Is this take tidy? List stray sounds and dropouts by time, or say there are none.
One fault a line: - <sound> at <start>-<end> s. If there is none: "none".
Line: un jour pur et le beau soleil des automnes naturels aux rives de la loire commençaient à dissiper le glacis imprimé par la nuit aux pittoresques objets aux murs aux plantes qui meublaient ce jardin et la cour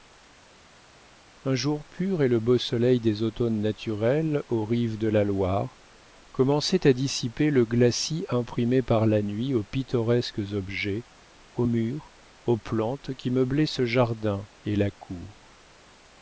none